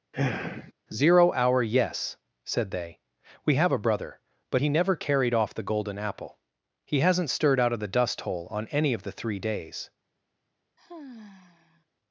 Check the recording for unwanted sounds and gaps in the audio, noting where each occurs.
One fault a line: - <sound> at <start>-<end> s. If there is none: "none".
- sigh at 0.1-0.7 s
- sigh at 10.8-11.9 s